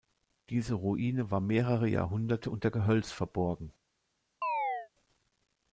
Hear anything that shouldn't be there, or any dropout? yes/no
yes